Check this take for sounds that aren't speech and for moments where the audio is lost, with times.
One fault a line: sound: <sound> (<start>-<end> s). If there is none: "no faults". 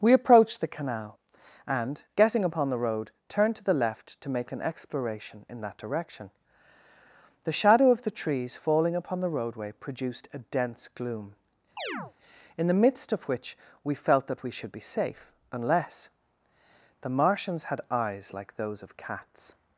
sound: chirp (11.8-12.1 s)